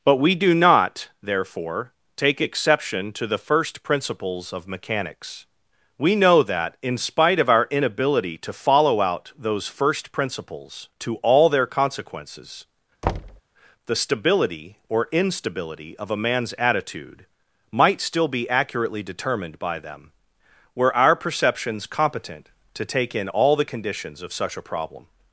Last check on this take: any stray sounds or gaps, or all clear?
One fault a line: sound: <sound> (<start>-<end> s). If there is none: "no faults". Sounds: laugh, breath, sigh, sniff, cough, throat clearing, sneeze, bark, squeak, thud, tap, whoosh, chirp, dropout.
sound: thud (13.0-13.4 s)